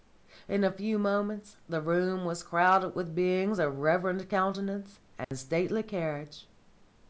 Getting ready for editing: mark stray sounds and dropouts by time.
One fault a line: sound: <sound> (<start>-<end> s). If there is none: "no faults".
sound: dropout (5.2-5.3 s)